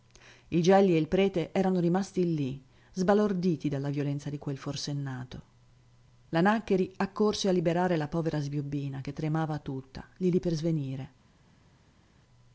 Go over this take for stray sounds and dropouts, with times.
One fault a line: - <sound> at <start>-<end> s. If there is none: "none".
none